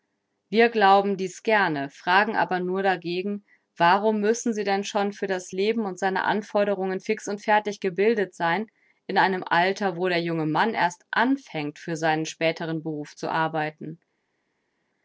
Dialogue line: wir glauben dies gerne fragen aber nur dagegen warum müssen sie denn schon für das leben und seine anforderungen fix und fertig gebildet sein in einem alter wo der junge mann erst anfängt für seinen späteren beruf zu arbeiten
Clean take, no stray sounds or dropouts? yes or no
yes